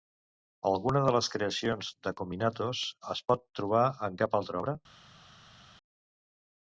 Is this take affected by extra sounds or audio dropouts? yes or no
no